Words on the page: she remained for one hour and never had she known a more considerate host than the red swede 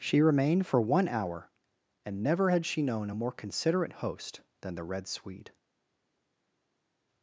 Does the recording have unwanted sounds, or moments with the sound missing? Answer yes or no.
no